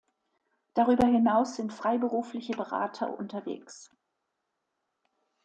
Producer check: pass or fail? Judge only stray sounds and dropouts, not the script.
pass